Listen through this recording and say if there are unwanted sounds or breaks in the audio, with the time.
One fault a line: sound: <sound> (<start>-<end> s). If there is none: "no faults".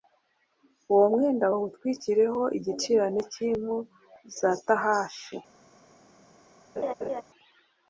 sound: laugh (6.8-7.2 s)